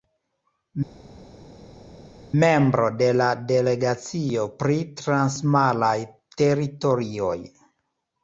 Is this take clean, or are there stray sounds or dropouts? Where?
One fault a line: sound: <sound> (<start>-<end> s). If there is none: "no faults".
no faults